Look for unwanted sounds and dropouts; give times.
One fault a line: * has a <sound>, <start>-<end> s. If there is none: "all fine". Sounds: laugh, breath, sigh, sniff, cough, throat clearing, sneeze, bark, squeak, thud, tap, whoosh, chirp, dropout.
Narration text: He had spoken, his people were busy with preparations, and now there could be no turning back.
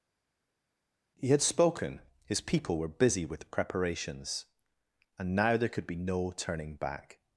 all fine